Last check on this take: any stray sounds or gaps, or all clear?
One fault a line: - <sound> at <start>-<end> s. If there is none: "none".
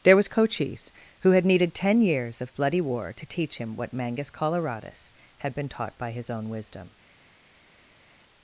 none